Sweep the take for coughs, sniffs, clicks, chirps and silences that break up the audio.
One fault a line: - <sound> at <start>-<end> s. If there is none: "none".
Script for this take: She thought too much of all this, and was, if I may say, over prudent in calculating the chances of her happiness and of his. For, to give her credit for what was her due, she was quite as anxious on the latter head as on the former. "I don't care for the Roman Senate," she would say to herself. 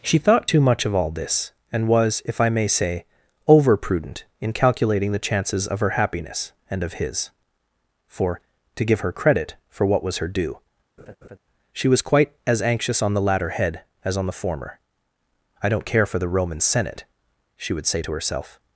- laugh at 11.0-11.4 s